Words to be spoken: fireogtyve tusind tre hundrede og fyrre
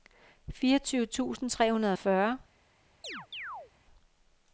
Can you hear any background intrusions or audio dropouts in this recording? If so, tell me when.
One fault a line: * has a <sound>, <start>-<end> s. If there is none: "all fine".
* has a chirp, 3.0-3.7 s